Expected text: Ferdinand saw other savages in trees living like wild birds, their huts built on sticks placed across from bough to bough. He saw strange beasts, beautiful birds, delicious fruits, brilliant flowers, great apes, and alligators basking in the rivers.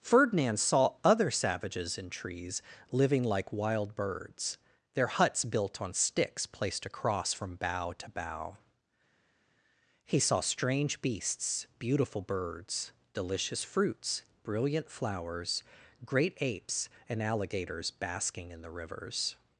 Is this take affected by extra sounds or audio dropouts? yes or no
no